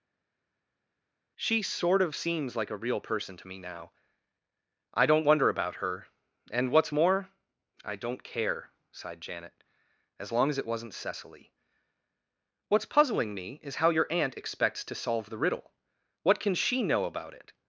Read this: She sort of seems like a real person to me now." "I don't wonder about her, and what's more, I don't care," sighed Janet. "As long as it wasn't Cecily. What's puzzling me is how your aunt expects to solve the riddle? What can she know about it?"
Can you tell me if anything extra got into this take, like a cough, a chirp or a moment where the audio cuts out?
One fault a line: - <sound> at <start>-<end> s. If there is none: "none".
none